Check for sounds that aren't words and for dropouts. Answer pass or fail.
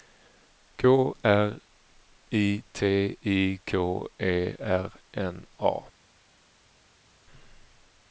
pass